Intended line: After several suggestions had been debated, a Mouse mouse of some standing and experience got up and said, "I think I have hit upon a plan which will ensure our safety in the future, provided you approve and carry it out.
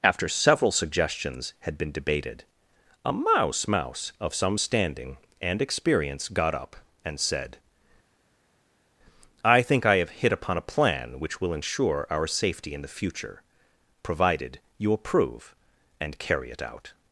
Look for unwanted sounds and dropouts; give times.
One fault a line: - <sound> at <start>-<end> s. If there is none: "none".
none